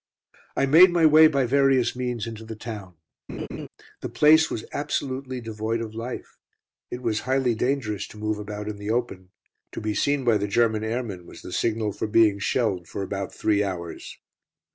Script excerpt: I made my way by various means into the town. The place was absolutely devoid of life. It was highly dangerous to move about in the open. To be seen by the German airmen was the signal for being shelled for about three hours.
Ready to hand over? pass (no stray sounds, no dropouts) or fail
fail